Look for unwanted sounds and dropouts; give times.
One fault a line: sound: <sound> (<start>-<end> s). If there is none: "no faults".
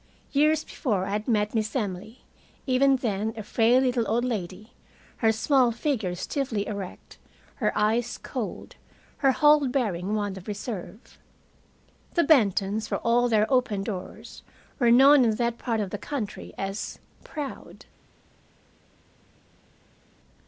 no faults